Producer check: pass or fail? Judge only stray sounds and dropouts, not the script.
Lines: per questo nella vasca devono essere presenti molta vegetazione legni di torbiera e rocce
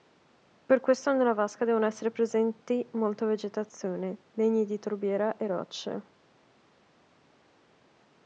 pass